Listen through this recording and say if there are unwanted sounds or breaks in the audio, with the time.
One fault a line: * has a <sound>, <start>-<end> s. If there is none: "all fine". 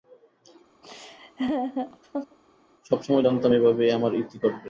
* has a laugh, 0.8-2.4 s